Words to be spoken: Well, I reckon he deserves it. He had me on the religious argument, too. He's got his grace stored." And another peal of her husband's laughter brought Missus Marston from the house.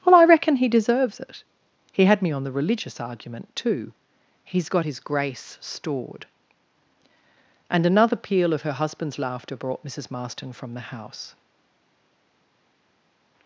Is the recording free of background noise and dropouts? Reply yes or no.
yes